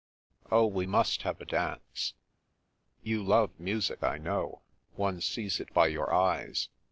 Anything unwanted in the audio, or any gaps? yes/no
no